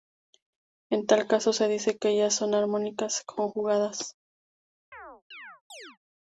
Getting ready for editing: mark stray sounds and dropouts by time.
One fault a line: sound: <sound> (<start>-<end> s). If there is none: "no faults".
sound: chirp (4.9-6.0 s)